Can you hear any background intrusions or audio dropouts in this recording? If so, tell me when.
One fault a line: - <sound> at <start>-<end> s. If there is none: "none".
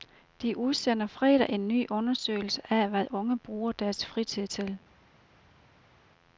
none